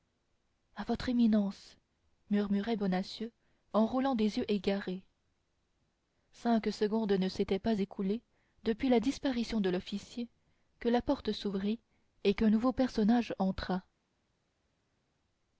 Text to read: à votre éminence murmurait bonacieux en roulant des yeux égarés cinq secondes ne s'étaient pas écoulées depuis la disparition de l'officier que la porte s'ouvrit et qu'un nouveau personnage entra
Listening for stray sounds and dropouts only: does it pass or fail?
pass